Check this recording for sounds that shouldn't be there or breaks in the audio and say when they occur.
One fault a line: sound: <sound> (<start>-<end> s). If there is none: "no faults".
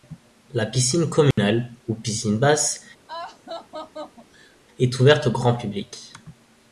sound: dropout (1.3-1.4 s)
sound: laugh (3.1-4.6 s)